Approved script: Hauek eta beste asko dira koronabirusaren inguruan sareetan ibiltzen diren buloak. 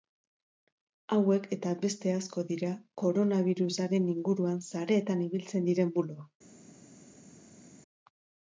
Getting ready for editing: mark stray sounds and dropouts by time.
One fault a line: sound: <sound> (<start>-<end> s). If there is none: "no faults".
no faults